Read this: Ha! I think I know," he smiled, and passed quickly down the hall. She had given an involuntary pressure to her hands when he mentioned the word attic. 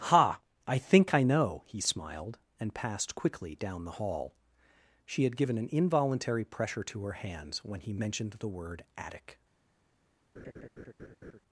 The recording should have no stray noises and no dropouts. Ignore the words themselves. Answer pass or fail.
fail